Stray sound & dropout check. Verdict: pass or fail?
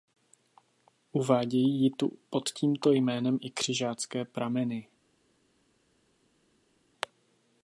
pass